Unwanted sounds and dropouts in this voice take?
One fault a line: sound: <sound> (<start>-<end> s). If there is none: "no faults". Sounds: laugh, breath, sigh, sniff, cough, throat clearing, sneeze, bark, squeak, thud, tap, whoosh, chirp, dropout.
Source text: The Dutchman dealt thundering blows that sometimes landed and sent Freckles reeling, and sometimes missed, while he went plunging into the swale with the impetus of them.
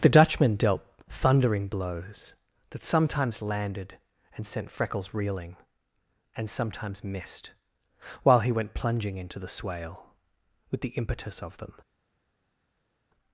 no faults